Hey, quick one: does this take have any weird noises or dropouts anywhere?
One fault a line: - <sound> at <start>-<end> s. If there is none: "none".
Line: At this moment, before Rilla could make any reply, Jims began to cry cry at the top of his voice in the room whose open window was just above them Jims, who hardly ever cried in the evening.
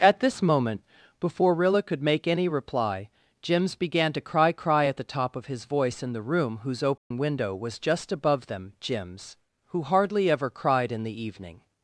- dropout at 7.0-7.1 s